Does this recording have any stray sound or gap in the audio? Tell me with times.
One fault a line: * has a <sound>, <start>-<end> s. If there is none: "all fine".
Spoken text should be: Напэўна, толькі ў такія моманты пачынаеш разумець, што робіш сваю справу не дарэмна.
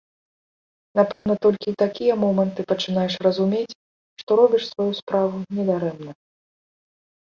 * has a dropout, 1.1-1.3 s